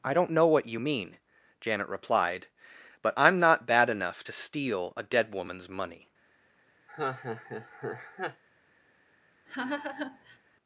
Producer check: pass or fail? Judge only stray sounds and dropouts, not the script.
fail